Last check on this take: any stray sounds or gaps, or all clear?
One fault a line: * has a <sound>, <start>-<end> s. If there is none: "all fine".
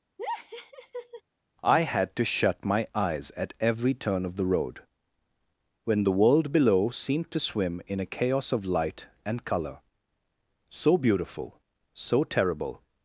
* has a laugh, 0.2-1.2 s